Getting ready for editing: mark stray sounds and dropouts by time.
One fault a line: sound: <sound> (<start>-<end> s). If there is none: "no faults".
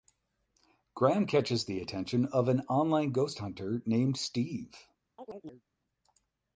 sound: chirp (5.2-5.6 s)